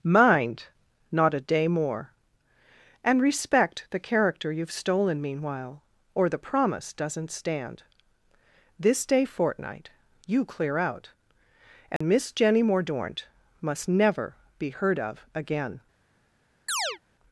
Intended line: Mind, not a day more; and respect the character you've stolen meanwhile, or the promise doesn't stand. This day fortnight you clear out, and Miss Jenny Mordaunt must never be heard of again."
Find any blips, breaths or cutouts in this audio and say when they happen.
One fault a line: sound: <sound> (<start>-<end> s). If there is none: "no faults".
sound: dropout (12.0-12.0 s)
sound: chirp (16.7-17.0 s)